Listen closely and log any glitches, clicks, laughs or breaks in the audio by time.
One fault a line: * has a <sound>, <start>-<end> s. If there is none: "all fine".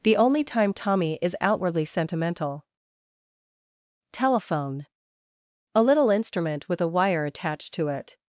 all fine